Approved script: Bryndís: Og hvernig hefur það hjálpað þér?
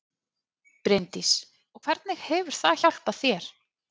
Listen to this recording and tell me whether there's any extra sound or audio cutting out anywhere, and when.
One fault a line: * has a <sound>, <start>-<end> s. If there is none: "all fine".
all fine